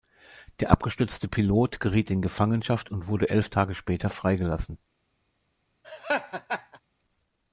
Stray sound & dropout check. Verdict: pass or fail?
fail